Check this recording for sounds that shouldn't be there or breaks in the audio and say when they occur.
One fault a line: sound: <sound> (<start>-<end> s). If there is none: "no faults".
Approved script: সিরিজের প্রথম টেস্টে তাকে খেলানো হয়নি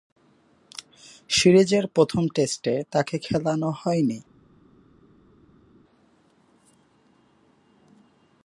no faults